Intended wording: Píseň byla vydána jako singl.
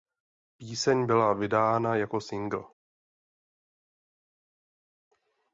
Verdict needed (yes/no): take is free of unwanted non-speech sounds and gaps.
yes